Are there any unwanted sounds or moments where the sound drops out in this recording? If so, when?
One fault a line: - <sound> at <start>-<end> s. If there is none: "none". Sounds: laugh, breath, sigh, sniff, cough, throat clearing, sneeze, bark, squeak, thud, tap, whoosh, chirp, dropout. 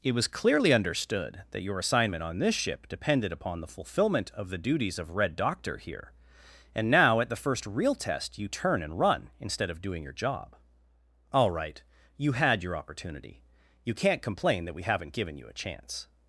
none